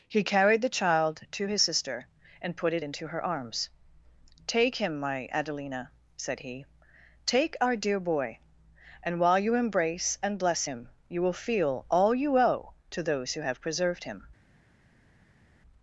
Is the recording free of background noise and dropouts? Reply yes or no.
yes